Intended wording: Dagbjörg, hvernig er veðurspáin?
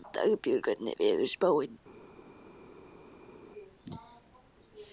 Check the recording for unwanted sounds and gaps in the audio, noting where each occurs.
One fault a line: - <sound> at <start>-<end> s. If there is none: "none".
none